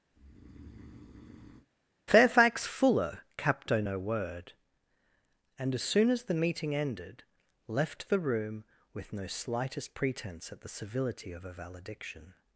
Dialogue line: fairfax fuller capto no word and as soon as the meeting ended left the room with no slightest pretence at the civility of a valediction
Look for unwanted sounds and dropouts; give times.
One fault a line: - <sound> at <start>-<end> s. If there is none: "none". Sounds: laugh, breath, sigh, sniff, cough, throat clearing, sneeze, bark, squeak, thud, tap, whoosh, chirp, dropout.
- breath at 0.1-1.7 s